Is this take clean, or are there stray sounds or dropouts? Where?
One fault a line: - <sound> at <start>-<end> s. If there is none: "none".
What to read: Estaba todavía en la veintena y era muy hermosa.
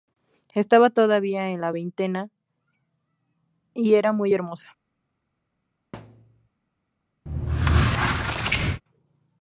- thud at 5.9-6.5 s
- squeak at 7.3-8.8 s